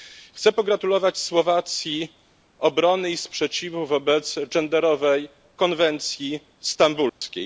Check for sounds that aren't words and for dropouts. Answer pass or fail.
fail